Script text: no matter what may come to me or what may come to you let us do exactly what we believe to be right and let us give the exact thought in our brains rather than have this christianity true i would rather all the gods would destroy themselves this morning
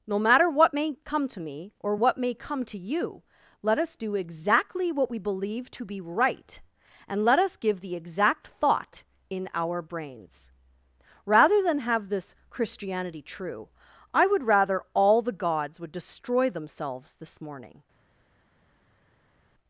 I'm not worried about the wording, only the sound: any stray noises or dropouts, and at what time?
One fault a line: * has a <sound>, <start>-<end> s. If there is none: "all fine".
all fine